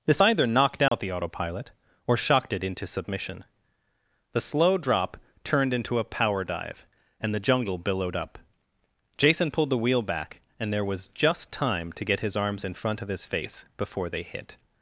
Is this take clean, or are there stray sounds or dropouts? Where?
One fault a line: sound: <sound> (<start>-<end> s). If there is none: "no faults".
sound: dropout (0.9-0.9 s)